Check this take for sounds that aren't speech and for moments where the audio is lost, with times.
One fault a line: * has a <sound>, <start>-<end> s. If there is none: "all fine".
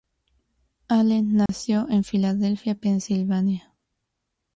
* has a dropout, 1.5-1.5 s